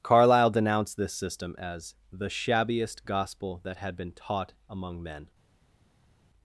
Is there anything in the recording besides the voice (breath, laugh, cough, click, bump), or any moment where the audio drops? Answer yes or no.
no